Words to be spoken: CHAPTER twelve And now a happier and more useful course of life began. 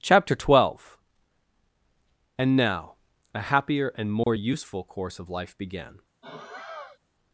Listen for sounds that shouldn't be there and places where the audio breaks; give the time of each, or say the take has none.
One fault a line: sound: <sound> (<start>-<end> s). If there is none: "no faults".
sound: dropout (4.2-4.3 s)
sound: sigh (6.2-7.0 s)